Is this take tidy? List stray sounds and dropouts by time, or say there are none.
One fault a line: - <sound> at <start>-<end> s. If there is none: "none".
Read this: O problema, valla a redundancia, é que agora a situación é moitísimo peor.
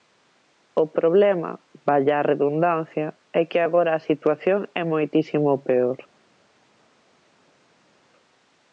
none